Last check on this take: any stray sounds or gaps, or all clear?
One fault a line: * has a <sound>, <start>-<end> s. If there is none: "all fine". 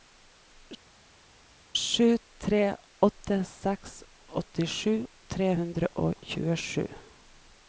all fine